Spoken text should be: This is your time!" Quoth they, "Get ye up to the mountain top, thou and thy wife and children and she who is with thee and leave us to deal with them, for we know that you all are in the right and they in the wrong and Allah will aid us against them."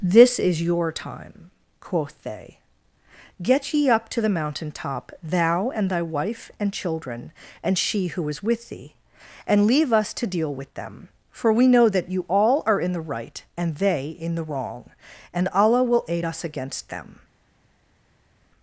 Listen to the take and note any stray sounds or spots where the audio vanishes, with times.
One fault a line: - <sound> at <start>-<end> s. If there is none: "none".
none